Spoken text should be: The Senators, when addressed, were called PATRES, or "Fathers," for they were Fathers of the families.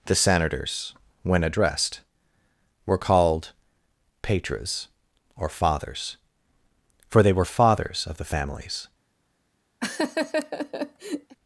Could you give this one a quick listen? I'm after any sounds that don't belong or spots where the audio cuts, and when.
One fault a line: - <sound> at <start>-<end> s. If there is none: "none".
- laugh at 9.8-11.4 s